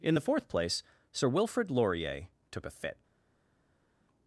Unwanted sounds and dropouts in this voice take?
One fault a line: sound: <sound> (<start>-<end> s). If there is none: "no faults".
no faults